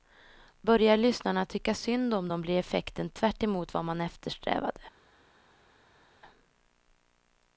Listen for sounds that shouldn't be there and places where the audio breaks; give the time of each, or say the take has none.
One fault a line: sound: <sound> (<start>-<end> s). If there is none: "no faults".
no faults